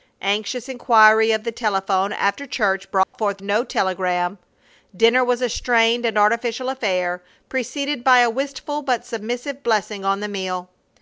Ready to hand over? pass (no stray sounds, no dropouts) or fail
fail